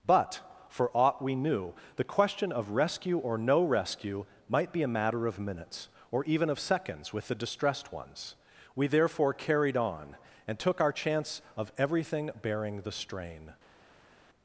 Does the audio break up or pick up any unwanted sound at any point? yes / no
no